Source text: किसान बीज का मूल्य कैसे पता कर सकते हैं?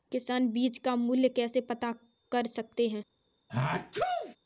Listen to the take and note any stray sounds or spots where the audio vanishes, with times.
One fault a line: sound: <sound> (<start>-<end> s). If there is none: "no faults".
sound: sneeze (3.5-4.4 s)